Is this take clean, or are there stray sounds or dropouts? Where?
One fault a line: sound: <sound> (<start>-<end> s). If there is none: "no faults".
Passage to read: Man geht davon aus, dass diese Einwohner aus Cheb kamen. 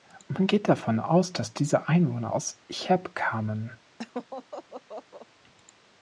sound: laugh (4.0-5.3 s)